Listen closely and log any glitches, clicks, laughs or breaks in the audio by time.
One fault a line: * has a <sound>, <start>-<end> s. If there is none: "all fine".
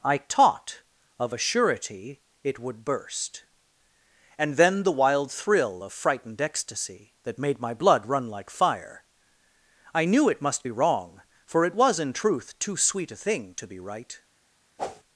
* has a whoosh, 14.8-15.0 s